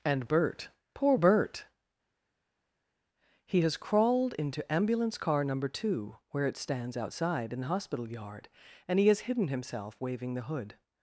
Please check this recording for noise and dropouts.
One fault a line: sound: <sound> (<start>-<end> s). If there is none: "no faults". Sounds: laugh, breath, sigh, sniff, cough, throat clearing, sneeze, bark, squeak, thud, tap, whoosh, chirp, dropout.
no faults